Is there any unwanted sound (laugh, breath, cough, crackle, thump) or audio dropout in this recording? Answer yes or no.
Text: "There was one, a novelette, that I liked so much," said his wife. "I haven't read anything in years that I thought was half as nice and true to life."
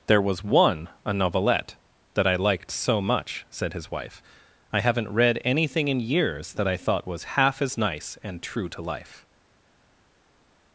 no